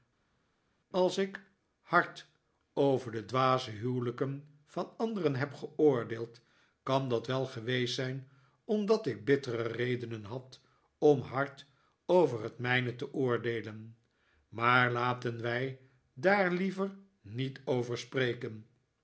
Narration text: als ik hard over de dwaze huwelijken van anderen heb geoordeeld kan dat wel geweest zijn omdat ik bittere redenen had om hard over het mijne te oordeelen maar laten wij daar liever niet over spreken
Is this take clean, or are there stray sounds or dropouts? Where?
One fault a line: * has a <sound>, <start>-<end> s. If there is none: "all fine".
all fine